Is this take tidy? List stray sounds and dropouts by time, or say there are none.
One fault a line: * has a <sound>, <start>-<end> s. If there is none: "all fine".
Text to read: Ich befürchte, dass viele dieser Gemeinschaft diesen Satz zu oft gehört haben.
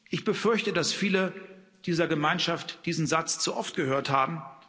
all fine